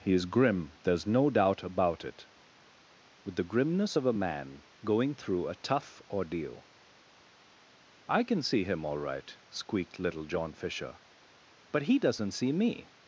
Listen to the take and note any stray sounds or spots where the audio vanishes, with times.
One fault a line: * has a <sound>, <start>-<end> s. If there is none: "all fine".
all fine